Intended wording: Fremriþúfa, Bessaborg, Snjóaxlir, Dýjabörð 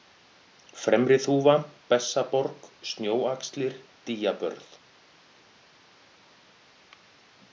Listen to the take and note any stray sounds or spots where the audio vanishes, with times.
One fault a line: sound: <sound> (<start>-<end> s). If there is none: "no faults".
no faults